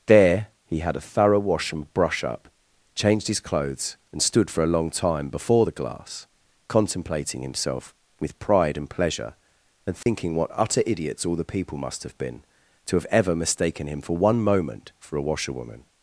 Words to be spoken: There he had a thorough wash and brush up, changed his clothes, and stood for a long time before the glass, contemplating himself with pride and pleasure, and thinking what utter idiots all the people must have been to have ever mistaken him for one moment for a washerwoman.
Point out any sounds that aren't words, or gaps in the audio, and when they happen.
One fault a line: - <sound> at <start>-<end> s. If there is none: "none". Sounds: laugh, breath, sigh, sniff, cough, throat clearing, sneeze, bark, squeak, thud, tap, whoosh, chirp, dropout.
- dropout at 10.0-10.1 s